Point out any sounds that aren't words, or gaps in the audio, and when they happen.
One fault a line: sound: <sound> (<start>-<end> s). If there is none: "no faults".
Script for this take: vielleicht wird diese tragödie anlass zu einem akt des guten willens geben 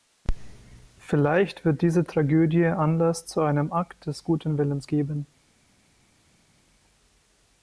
no faults